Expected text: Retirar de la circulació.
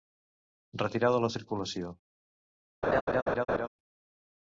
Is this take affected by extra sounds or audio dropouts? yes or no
yes